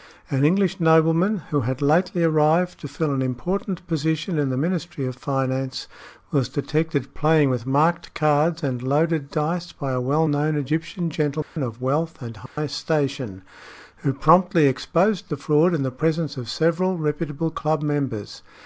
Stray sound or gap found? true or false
true